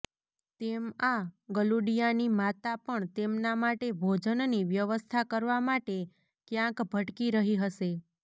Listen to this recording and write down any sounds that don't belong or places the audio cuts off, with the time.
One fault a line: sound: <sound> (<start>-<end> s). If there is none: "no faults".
no faults